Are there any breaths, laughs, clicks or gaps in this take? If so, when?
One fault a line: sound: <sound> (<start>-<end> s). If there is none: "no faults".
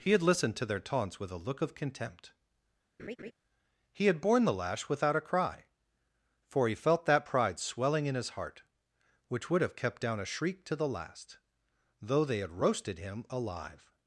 sound: laugh (3.0-3.3 s)